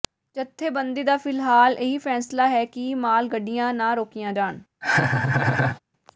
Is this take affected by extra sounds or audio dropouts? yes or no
yes